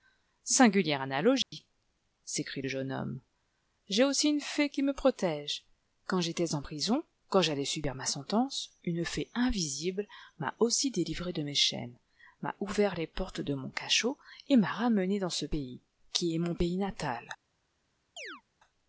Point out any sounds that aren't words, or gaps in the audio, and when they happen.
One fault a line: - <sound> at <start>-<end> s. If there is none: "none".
- dropout at 1.4-1.5 s
- chirp at 18.2-18.4 s